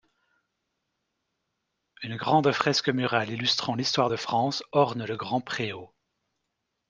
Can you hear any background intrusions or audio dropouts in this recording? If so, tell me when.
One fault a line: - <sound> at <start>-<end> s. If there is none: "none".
none